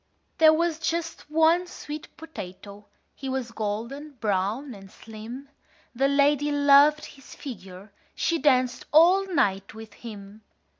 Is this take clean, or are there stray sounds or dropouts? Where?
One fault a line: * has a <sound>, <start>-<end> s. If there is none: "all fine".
all fine